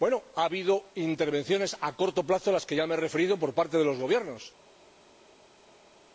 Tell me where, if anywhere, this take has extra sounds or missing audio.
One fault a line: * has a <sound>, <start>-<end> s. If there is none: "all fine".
all fine